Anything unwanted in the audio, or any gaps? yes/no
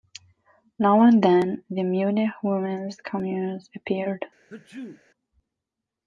yes